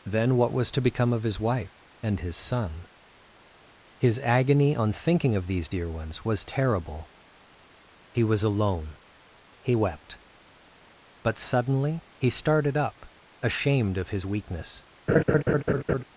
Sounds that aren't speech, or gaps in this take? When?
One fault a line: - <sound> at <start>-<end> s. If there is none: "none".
- laugh at 15.1-16.0 s